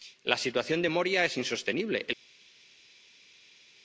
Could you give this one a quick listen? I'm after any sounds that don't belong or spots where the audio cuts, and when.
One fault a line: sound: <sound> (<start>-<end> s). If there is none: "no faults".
no faults